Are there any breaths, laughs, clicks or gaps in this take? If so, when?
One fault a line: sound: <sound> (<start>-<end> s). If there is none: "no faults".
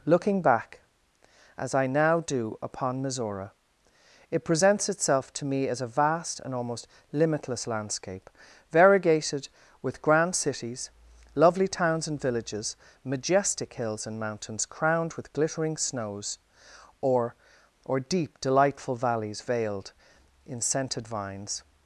no faults